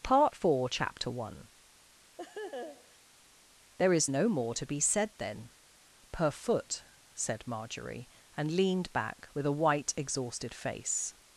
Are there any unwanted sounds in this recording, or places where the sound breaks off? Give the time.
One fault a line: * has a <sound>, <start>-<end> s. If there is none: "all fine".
* has a laugh, 2.2-3.0 s